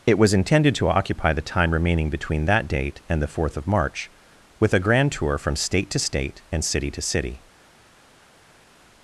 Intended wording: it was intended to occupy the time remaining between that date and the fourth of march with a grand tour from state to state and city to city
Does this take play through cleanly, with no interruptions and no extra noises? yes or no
yes